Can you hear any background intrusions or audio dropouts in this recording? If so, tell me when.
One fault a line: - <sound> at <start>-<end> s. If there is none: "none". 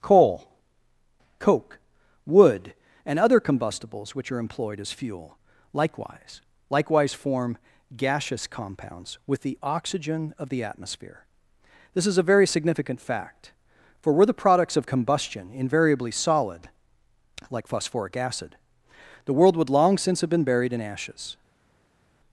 none